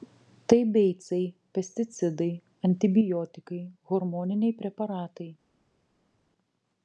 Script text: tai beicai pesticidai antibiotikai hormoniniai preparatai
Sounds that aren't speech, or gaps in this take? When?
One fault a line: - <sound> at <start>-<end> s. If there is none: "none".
none